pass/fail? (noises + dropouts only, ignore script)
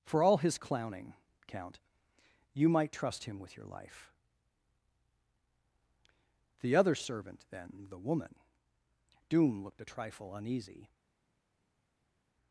pass